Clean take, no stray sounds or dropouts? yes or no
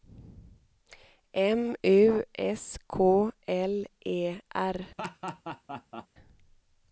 no